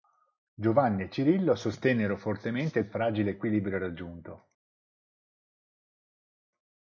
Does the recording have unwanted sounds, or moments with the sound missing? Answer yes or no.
no